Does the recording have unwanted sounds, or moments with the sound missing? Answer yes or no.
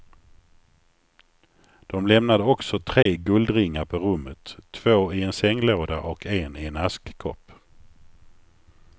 yes